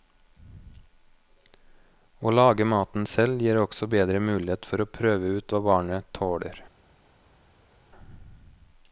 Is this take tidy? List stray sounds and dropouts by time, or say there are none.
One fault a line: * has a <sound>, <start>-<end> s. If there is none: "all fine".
all fine